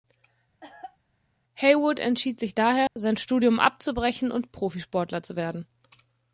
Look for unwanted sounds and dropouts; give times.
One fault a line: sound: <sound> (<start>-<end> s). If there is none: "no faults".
sound: cough (0.6-1.0 s)
sound: dropout (2.9-3.0 s)